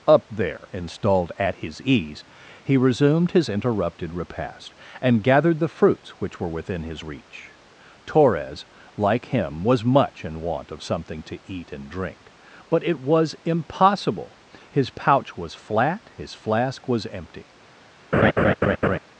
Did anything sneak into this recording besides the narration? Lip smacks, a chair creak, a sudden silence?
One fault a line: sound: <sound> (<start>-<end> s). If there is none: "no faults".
sound: laugh (18.1-19.0 s)